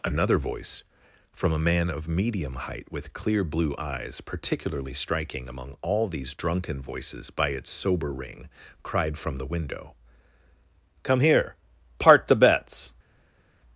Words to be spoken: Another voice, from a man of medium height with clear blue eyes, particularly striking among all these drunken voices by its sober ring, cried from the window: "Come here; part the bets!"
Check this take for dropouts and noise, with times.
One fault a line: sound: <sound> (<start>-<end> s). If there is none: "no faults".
no faults